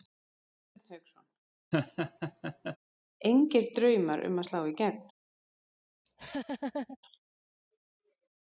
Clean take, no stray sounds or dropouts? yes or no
no